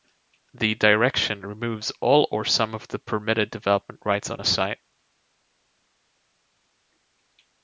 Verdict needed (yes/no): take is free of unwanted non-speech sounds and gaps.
yes